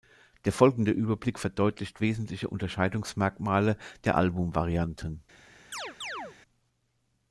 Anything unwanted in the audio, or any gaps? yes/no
yes